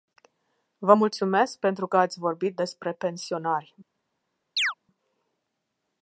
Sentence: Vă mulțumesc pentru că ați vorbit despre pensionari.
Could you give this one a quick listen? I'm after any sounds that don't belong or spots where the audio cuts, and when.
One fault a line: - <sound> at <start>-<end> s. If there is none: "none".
- chirp at 4.6-4.7 s